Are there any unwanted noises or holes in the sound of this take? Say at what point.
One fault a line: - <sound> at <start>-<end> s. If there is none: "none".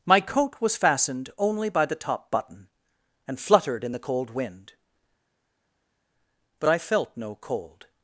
none